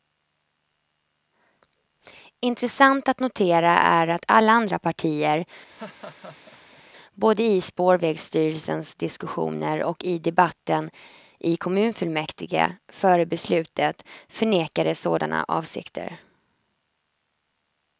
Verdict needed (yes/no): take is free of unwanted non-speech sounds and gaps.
no